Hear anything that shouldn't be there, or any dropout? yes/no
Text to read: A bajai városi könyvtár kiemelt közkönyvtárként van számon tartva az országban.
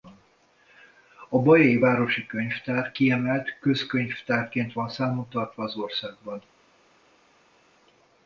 no